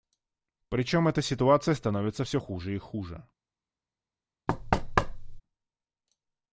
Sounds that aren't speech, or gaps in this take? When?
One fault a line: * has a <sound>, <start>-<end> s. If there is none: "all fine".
* has a thud, 4.5-5.4 s